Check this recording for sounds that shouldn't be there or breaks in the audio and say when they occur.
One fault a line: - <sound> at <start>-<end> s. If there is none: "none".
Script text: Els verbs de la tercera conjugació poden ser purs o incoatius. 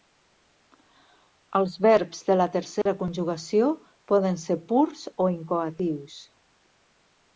- dropout at 2.8-2.9 s